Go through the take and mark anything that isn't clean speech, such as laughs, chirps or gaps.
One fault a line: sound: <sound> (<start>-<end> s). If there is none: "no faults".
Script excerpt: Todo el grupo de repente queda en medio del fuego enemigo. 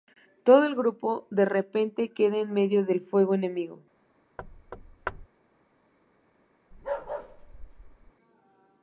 sound: thud (4.4-5.3 s)
sound: bark (6.7-8.1 s)